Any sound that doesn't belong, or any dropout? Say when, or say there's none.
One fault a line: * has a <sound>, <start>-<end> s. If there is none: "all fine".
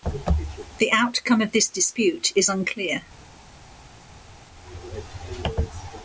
all fine